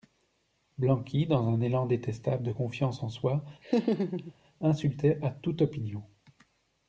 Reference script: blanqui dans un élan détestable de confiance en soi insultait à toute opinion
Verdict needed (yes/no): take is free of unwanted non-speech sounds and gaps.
no